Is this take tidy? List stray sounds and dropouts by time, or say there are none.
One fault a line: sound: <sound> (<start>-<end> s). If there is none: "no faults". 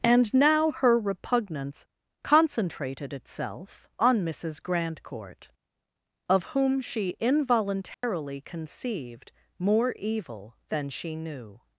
sound: dropout (7.9-8.0 s)